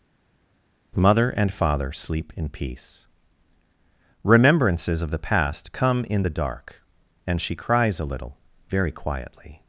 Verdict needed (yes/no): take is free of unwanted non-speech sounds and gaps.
yes